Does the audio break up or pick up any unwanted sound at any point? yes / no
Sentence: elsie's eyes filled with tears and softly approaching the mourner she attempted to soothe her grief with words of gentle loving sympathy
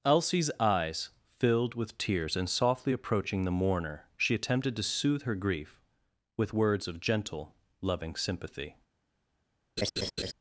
yes